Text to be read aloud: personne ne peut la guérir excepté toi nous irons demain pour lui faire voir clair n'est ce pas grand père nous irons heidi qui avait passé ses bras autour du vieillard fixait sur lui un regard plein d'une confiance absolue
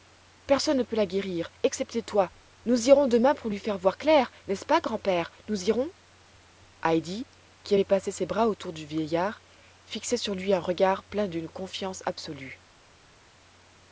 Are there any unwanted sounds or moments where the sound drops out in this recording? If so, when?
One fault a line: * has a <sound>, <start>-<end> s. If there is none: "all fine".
all fine